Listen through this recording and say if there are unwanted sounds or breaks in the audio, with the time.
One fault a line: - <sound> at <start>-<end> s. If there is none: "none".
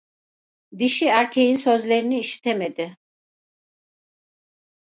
none